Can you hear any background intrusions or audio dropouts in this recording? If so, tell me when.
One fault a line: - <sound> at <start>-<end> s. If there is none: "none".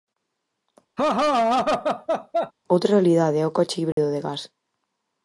- laugh at 1.0-2.5 s
- dropout at 3.9-4.0 s